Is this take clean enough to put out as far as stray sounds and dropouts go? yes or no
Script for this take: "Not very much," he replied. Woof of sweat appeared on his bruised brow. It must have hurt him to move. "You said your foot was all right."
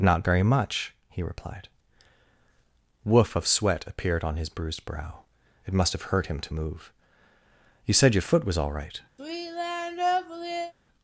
no